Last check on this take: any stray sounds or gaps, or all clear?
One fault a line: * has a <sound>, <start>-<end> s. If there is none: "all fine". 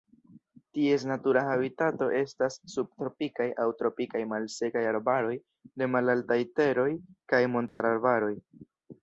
* has a dropout, 7.7-7.8 s